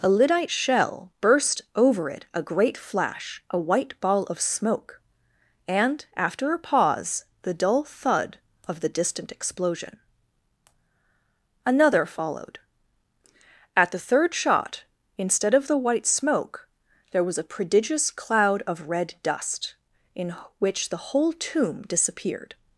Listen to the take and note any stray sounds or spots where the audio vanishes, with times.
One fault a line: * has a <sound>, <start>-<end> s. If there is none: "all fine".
all fine